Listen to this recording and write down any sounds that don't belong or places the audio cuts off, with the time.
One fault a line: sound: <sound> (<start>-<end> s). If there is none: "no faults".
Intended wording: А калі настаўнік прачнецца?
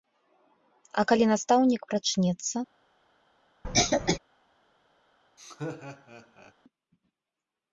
sound: cough (3.6-4.2 s)
sound: laugh (5.4-6.5 s)